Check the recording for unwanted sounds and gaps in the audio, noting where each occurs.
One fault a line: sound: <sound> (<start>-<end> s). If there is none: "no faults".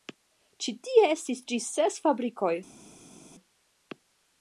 no faults